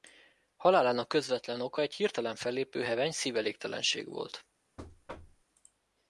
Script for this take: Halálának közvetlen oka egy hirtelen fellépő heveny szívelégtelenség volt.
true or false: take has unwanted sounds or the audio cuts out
true